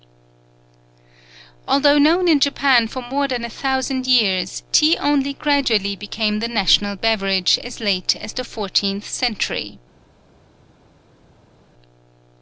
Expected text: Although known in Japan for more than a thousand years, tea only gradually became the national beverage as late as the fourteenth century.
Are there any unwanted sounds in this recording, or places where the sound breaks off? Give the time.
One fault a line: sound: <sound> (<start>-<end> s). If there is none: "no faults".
no faults